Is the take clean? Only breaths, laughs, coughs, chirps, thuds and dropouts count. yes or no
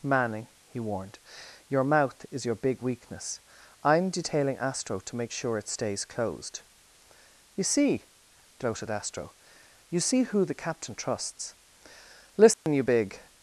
no